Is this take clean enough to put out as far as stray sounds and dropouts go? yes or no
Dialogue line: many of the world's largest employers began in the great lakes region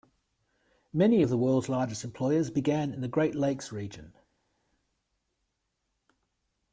yes